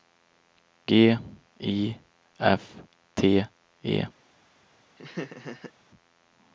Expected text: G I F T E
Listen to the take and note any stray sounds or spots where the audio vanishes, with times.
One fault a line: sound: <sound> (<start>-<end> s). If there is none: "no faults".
sound: laugh (5.0-5.7 s)